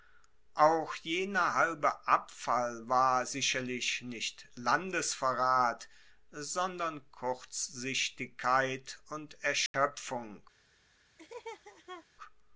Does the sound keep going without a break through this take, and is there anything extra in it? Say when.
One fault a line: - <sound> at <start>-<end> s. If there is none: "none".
- dropout at 9.7-9.7 s
- laugh at 11.2-12.1 s